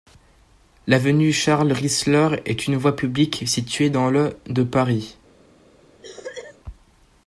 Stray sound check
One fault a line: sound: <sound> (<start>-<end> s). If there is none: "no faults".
sound: cough (6.0-6.6 s)